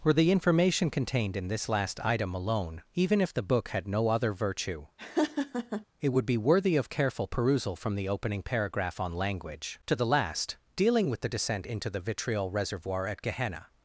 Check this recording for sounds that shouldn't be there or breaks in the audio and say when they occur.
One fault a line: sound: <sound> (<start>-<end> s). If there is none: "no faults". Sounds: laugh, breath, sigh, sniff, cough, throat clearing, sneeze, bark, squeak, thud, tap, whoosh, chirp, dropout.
sound: laugh (5.0-5.8 s)